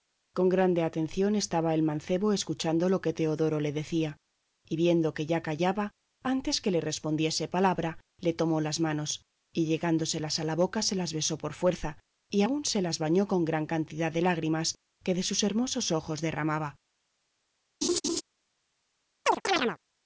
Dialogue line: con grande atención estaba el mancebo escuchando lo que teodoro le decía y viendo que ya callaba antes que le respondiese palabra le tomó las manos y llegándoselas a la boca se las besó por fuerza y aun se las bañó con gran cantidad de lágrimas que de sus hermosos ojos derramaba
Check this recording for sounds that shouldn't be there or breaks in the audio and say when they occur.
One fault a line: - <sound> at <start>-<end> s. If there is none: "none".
- laugh at 17.8-18.2 s
- chirp at 19.3-19.8 s